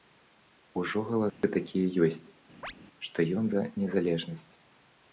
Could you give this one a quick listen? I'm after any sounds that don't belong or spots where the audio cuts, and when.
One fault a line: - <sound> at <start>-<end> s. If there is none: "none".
- dropout at 1.3-1.4 s
- chirp at 2.6-2.7 s